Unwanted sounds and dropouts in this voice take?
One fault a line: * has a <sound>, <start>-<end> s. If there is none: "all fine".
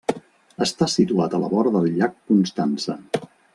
all fine